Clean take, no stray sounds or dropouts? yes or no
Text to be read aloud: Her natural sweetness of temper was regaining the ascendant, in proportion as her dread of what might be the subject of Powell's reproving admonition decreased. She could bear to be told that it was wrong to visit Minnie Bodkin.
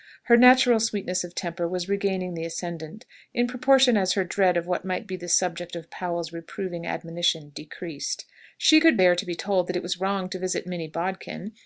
yes